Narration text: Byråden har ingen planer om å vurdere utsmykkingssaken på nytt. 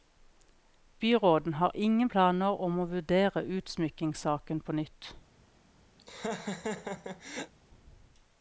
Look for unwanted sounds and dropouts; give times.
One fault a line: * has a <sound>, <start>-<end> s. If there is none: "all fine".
* has a laugh, 6.0-7.5 s